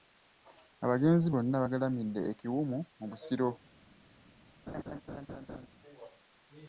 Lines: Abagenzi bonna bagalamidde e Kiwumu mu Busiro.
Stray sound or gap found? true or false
true